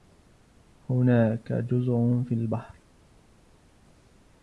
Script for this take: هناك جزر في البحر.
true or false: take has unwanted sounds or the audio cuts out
false